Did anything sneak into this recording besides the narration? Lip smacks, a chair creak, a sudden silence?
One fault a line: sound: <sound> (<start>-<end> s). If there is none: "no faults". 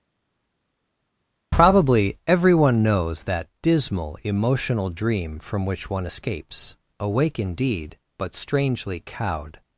no faults